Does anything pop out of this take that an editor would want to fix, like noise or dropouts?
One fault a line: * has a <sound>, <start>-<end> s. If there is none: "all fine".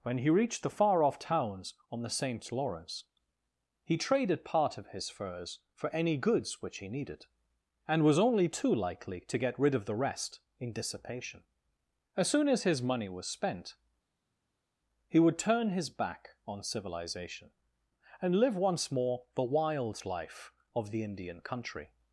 all fine